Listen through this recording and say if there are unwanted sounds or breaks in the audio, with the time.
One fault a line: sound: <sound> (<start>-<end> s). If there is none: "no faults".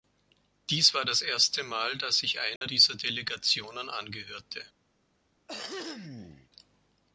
sound: dropout (2.6-2.6 s)
sound: throat clearing (5.5-6.5 s)